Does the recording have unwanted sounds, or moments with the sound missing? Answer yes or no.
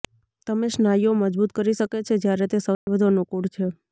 yes